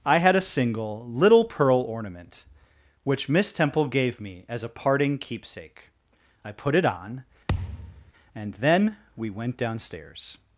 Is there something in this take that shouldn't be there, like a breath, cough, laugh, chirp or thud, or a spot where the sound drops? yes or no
yes